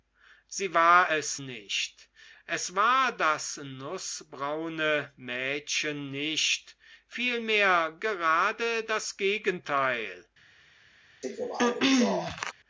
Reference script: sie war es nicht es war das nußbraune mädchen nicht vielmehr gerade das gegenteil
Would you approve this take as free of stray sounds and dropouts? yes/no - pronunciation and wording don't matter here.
no